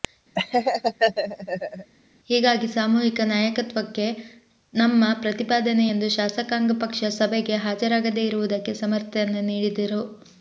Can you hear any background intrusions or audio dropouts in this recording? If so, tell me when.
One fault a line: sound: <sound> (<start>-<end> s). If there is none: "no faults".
sound: laugh (0.4-1.9 s)